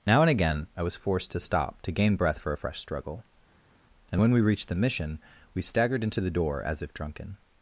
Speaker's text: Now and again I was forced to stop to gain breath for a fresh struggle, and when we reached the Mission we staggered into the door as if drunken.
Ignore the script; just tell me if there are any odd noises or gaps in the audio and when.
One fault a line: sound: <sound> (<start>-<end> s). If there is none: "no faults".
no faults